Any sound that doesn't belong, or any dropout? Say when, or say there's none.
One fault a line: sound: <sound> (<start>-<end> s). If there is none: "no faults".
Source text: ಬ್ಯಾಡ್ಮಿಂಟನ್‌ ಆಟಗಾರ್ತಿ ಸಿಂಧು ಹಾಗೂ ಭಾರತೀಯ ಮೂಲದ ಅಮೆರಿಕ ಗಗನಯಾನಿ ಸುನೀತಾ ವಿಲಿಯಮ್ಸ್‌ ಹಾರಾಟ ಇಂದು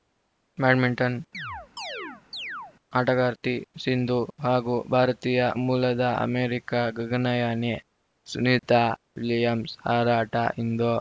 sound: chirp (1.3-2.7 s)